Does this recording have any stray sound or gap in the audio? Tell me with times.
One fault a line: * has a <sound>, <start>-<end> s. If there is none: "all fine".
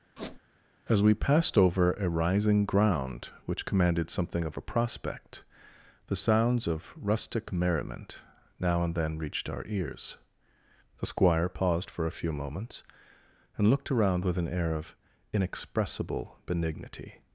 * has a squeak, 0.2-0.4 s